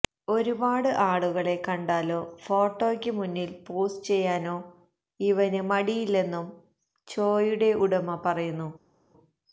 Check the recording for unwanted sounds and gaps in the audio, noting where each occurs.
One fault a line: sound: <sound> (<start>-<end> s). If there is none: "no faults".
no faults